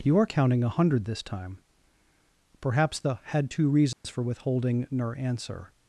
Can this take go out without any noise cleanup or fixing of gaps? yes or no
no